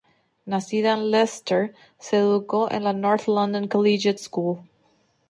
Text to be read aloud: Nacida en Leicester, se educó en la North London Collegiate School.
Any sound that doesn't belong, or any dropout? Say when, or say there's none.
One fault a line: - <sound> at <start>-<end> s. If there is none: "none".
none